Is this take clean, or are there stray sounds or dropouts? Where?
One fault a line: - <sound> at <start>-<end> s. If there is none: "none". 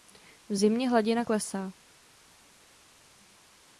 none